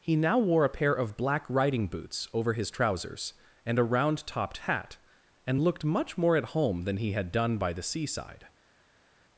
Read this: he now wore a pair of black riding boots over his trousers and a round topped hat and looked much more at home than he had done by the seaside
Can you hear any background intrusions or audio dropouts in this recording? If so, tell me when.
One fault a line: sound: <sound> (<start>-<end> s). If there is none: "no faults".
no faults